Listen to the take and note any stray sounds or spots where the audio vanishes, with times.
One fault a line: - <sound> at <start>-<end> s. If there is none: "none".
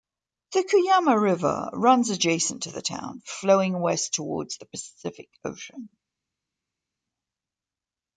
none